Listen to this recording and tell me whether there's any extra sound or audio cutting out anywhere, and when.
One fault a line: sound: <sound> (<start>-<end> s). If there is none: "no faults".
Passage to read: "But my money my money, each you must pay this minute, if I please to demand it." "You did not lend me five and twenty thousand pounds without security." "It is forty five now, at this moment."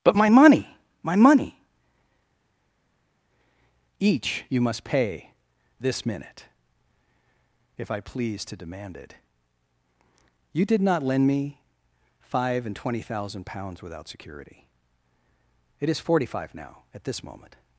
no faults